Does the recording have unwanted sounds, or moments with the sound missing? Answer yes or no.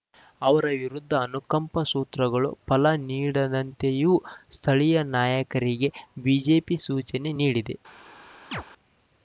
yes